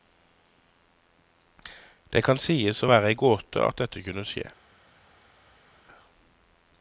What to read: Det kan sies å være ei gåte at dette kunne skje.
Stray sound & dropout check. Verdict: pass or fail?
pass